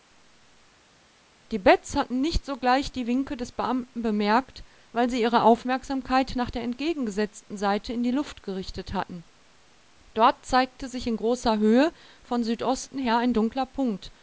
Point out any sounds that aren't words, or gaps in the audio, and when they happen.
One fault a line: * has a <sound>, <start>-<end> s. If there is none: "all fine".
all fine